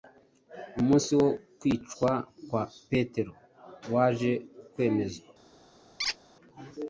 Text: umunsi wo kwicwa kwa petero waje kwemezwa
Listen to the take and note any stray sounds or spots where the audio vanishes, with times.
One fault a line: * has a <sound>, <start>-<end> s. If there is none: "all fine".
* has a squeak, 6.0-6.2 s